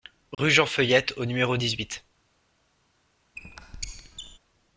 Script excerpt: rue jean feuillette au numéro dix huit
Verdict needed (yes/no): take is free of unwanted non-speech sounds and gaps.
no